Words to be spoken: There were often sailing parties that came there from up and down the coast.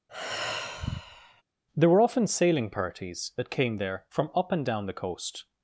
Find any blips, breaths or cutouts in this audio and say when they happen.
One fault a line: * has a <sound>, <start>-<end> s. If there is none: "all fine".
* has a sigh, 0.1-1.4 s